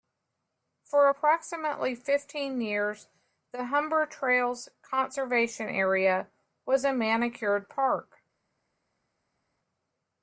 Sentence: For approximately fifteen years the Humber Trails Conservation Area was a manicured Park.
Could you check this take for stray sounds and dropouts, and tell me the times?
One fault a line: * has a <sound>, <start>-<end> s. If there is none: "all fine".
all fine